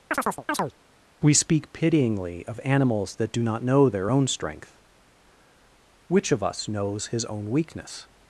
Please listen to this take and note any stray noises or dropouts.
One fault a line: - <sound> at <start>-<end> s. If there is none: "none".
- chirp at 0.1-0.7 s